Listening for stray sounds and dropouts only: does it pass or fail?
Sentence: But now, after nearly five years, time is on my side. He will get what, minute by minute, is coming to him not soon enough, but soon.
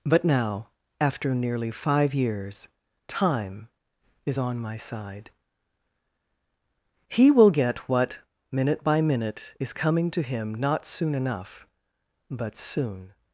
pass